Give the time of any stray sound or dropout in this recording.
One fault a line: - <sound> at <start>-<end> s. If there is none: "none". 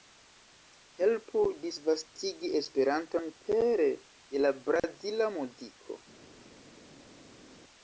none